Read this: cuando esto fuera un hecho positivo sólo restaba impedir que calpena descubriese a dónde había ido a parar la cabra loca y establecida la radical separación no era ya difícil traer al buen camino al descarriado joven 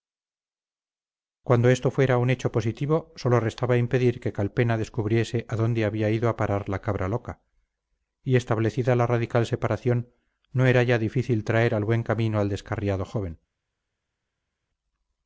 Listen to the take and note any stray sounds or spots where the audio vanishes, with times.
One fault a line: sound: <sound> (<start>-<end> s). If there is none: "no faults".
no faults